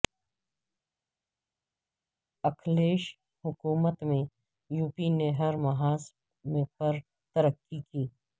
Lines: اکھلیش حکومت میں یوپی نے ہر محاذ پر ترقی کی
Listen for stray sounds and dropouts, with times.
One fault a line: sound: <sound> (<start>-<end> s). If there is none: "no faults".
no faults